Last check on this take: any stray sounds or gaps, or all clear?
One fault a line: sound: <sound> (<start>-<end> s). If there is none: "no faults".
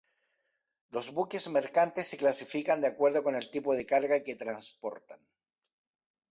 no faults